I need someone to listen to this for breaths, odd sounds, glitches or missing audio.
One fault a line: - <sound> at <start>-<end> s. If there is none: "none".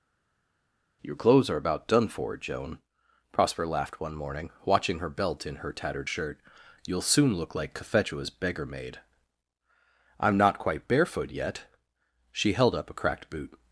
none